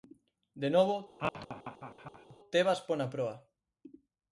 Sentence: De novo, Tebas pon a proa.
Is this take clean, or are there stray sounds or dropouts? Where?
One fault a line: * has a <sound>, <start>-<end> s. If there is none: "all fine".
* has a laugh, 1.2-2.4 s